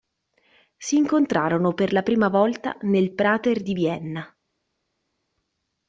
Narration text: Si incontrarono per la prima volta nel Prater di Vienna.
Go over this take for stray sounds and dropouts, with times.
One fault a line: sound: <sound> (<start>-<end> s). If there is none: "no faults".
no faults